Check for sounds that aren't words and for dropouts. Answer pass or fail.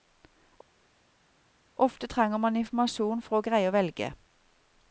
pass